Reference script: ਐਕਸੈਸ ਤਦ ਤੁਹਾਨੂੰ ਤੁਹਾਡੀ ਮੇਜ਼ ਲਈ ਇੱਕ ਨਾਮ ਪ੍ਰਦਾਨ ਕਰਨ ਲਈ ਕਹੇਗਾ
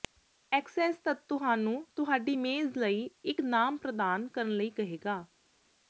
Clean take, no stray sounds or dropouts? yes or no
yes